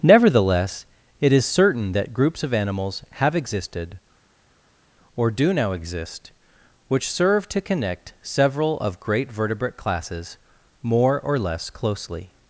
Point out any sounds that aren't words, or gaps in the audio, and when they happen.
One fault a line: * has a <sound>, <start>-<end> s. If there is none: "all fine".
all fine